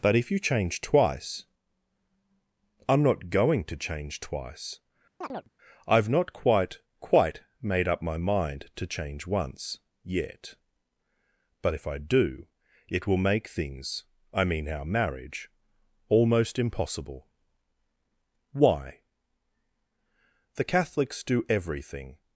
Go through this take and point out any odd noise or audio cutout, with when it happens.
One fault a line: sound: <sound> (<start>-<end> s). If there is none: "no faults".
sound: chirp (5.2-5.5 s)